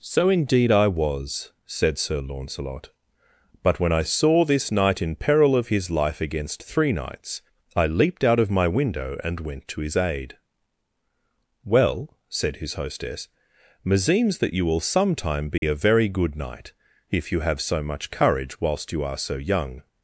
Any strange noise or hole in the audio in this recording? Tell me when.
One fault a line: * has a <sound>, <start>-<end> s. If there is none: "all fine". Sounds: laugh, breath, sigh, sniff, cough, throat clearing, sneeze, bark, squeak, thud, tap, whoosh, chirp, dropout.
* has a dropout, 15.6-15.6 s